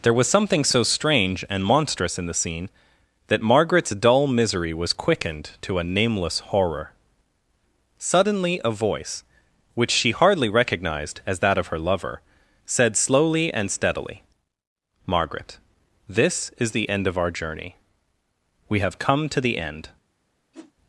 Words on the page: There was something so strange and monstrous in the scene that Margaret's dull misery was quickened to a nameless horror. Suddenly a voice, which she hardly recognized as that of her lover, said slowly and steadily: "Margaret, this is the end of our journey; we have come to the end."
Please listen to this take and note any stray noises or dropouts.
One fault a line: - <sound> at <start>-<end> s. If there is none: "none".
- whoosh at 20.5-20.7 s